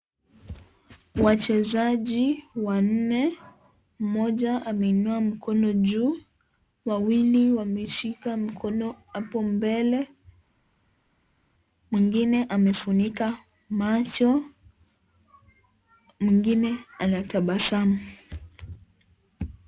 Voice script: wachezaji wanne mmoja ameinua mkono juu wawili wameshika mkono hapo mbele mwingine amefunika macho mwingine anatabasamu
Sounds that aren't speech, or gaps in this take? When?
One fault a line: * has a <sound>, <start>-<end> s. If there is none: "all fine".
all fine